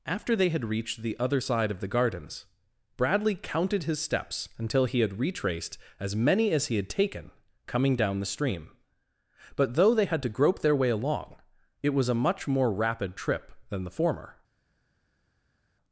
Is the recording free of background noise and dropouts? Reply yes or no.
yes